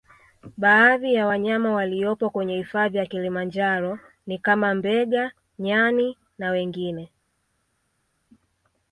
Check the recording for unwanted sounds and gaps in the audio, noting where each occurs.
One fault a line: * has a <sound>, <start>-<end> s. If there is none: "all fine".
all fine